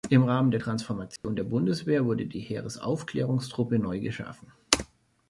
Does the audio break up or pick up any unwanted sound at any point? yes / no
yes